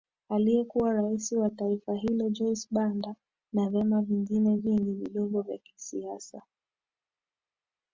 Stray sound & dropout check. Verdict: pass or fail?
pass